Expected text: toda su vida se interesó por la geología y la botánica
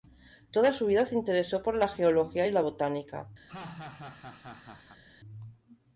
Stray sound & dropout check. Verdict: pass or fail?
fail